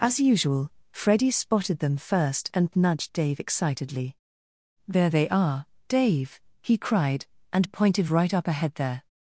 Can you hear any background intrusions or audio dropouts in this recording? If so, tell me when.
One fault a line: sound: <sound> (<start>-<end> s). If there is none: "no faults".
no faults